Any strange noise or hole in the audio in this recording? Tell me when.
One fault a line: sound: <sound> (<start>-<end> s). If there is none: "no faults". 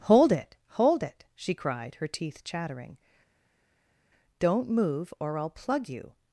no faults